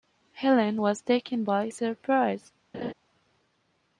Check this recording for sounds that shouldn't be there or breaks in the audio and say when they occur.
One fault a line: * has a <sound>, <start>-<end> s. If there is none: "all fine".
* has a laugh, 2.7-2.9 s